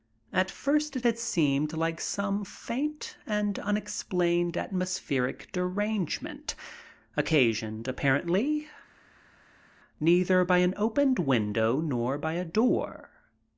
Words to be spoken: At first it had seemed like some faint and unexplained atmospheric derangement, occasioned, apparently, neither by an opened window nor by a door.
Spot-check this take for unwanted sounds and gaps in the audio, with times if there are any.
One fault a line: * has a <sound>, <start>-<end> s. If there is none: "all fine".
all fine